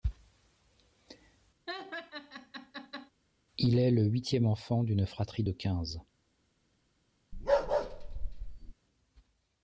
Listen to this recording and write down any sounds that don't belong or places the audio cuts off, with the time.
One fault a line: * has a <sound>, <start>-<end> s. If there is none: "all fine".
* has a laugh, 1.7-3.1 s
* has a bark, 7.3-8.7 s